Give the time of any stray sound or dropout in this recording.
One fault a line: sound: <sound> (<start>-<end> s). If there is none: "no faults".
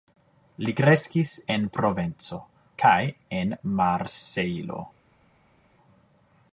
no faults